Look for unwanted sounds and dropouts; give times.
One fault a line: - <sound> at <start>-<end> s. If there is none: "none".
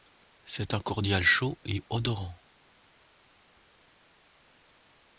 none